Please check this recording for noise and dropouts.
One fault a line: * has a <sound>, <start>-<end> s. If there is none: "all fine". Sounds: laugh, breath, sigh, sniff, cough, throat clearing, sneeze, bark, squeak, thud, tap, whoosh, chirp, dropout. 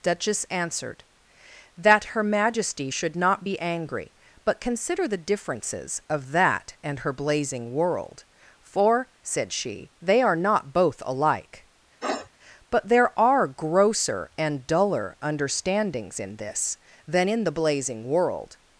* has a sniff, 12.0-12.3 s